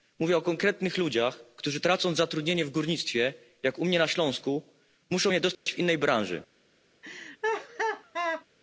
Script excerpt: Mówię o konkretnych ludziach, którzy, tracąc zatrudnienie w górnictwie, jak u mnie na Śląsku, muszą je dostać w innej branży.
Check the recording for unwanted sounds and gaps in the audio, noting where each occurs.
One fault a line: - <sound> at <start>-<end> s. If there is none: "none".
- dropout at 5.5-5.7 s
- laugh at 7.0-8.5 s